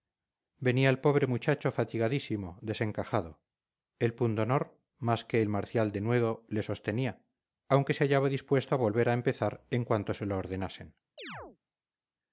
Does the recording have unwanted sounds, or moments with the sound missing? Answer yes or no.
yes